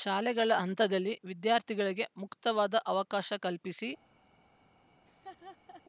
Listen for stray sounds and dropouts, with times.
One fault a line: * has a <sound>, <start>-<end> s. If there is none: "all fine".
* has a laugh, 5.1-5.8 s